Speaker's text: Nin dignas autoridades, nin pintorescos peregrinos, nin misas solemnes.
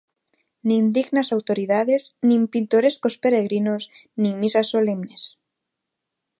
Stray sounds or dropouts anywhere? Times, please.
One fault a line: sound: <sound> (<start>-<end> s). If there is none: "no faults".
no faults